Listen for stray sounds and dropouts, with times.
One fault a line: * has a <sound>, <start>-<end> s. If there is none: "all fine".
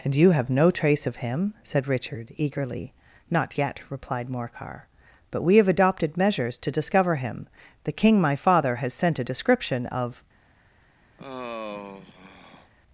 * has a sigh, 11.2-12.7 s